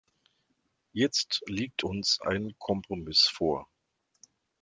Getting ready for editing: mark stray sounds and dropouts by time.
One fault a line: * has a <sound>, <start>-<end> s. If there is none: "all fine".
all fine